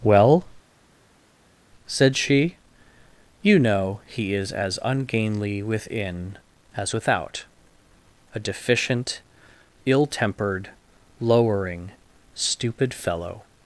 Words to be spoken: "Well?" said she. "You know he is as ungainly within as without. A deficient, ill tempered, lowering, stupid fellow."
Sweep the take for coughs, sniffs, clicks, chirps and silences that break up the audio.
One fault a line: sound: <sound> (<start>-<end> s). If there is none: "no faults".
no faults